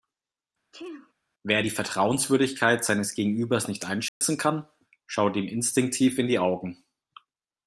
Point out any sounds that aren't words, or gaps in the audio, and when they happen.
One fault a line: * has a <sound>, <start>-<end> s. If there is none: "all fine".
* has a sneeze, 0.7-1.1 s
* has a dropout, 4.1-4.2 s